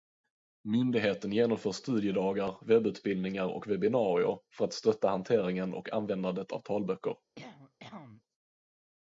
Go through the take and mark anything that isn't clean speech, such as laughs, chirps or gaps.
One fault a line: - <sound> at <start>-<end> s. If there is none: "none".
- cough at 7.4-8.2 s